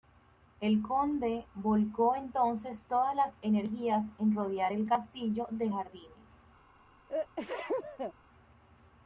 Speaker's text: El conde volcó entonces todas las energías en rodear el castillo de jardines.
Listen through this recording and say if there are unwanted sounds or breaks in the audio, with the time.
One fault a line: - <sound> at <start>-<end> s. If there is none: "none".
- sneeze at 7.1-8.1 s